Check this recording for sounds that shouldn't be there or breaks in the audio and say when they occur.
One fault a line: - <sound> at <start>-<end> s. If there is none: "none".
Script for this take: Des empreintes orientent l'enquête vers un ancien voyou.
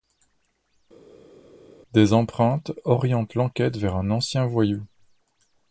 none